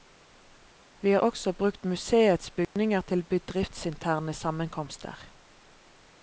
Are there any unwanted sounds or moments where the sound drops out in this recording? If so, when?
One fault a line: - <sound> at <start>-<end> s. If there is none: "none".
- dropout at 2.6-2.8 s